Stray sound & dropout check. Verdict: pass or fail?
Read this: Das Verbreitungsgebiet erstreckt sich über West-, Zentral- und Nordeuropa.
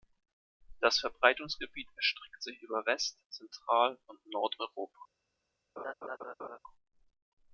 fail